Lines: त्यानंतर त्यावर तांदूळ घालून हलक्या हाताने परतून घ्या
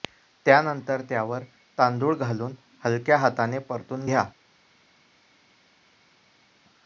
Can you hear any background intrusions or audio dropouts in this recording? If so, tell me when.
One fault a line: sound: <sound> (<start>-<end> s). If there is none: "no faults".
no faults